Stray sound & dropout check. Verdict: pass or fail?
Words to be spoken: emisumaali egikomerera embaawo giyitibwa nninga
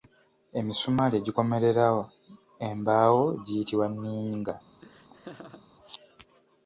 fail